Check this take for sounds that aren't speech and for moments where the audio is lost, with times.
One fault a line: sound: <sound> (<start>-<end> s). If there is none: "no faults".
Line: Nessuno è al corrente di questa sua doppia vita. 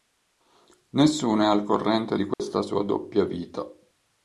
sound: dropout (2.3-2.4 s)